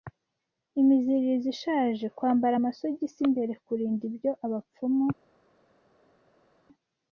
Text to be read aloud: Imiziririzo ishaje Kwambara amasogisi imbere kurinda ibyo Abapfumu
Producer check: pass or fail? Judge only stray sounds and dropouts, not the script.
pass